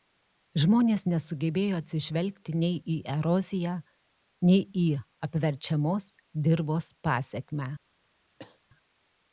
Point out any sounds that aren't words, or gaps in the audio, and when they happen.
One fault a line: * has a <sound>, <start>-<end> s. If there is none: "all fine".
* has a cough, 8.4-8.6 s